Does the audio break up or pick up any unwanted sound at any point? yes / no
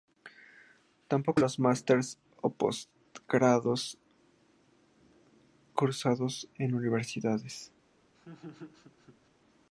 yes